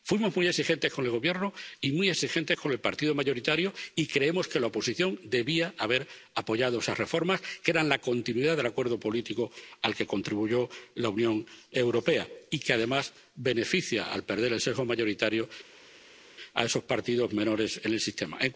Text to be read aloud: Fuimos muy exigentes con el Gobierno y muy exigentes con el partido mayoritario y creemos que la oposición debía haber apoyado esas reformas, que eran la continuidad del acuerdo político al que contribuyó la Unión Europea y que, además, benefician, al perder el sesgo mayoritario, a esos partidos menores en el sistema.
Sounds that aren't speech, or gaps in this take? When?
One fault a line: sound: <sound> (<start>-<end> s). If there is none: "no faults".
no faults